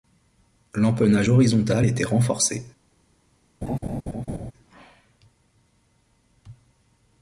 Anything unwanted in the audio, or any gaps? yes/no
yes